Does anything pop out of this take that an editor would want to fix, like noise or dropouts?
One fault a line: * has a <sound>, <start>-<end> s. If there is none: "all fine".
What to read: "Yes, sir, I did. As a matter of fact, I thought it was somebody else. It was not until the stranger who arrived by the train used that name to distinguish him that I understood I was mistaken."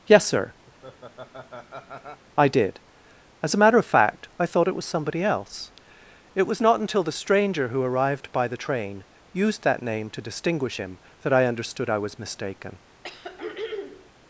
* has a laugh, 0.7-2.2 s
* has a throat clearing, 13.0-14.1 s